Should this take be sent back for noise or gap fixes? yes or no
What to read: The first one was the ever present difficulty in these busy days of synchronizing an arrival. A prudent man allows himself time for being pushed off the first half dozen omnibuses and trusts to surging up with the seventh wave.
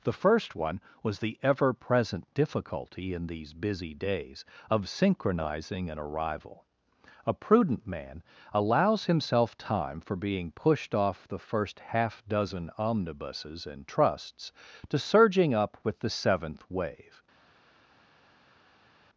no